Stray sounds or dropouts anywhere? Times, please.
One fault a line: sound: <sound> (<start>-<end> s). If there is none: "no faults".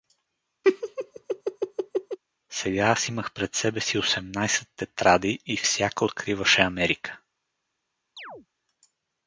sound: laugh (0.6-2.2 s)
sound: chirp (8.2-8.5 s)